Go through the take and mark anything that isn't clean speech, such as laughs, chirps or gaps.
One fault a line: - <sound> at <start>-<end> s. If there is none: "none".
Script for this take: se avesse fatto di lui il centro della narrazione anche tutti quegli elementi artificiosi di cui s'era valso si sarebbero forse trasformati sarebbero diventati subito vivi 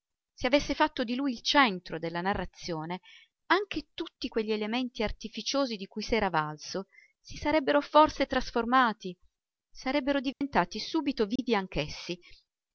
- dropout at 10.3-10.4 s
- dropout at 11.4-11.4 s